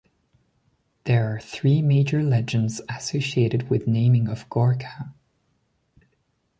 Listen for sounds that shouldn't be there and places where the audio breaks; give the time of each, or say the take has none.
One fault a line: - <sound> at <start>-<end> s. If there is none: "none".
none